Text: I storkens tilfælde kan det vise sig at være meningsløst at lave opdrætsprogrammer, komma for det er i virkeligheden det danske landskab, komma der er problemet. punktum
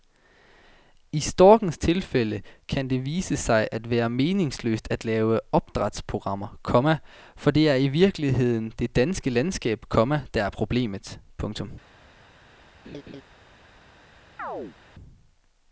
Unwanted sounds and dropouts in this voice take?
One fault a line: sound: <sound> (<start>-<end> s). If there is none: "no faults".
sound: laugh (12.8-13.2 s)
sound: chirp (14.4-14.8 s)